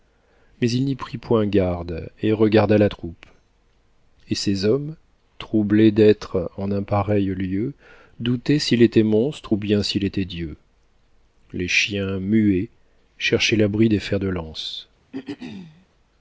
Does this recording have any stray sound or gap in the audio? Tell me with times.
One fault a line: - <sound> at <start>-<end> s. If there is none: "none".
- throat clearing at 15.1-15.9 s